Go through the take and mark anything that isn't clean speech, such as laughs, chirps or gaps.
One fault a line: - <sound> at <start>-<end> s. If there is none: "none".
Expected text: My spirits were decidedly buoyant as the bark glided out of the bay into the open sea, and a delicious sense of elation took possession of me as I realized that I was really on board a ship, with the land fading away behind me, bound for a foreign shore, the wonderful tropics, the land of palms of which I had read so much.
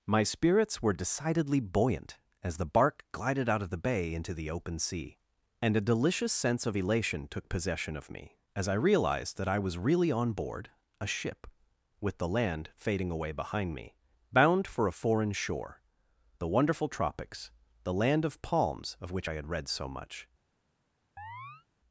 - chirp at 21.2-21.7 s